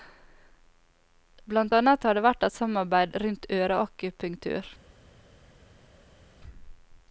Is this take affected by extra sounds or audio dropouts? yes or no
no